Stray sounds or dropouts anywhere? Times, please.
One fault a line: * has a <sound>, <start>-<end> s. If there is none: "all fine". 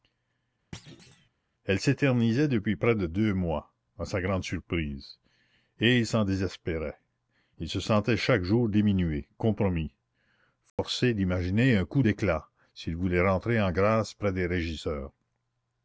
* has a thud, 0.7-1.3 s
* has a dropout, 10.7-10.8 s